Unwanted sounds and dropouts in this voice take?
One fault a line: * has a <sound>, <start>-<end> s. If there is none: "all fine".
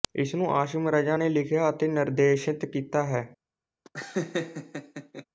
* has a laugh, 3.8-5.2 s